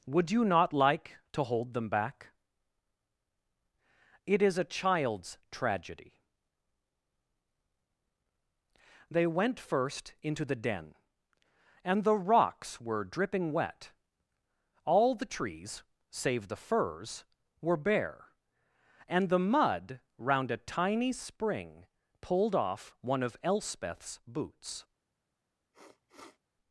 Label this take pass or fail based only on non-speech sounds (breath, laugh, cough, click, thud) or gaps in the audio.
fail